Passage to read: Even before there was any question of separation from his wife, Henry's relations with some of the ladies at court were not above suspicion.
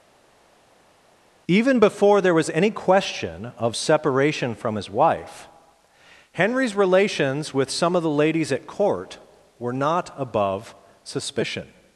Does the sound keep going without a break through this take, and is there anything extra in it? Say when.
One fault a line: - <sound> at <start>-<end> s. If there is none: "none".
none